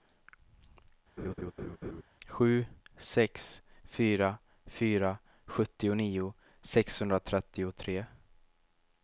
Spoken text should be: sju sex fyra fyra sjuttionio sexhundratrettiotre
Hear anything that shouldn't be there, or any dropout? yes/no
yes